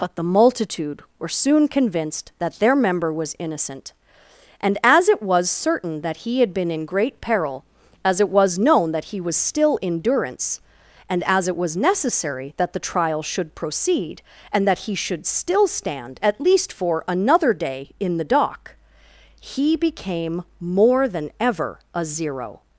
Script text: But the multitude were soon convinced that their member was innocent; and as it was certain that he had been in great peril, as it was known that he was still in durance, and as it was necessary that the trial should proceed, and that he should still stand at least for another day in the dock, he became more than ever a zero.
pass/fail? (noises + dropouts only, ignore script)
pass